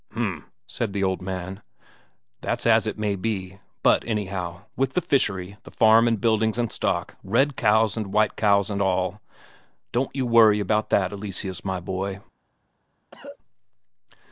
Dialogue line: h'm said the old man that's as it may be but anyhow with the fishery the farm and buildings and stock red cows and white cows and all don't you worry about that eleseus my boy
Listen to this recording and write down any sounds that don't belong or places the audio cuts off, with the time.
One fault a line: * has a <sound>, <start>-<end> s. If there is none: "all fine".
* has a cough, 13.1-13.4 s